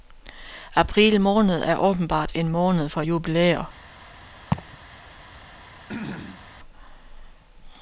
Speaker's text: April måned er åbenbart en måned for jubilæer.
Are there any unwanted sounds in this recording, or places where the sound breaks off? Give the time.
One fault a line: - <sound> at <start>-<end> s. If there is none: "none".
- laugh at 4.5-4.8 s
- throat clearing at 5.9-6.5 s